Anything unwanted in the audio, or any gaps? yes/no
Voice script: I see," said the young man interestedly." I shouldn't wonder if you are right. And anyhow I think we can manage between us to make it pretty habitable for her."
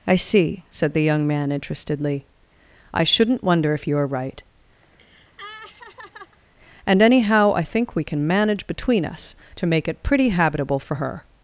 yes